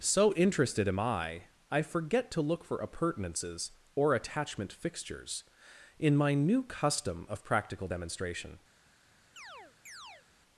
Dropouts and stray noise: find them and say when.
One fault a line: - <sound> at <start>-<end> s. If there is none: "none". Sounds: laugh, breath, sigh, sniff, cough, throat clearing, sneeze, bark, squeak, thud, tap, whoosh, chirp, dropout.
- chirp at 9.4-10.3 s